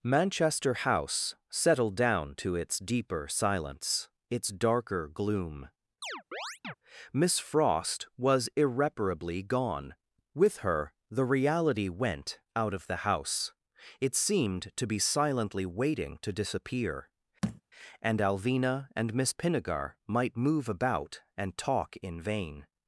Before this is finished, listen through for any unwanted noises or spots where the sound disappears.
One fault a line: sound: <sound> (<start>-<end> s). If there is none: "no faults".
sound: chirp (6.0-6.7 s)
sound: thud (17.4-17.6 s)